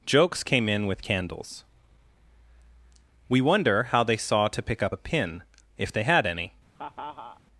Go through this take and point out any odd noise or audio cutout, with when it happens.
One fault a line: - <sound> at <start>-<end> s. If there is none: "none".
- laugh at 6.8-7.4 s